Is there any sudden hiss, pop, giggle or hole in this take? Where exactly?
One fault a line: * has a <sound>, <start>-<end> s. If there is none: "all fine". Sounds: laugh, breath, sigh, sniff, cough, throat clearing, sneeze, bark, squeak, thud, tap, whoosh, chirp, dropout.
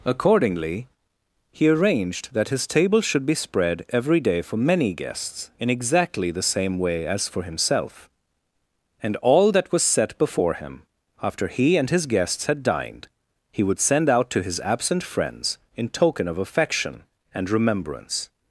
all fine